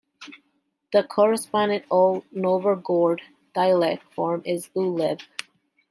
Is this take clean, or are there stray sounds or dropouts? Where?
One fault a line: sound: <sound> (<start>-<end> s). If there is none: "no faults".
no faults